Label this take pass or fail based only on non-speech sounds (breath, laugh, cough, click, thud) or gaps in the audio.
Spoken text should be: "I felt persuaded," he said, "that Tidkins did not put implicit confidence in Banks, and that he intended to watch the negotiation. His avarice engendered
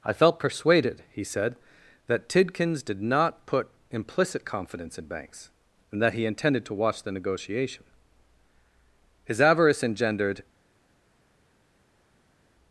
pass